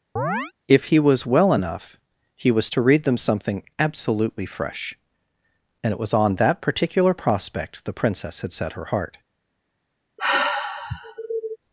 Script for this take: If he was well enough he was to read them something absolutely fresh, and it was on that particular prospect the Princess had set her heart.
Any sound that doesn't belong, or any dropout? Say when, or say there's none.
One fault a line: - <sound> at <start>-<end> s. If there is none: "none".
- chirp at 0.2-0.5 s
- sigh at 10.2-11.6 s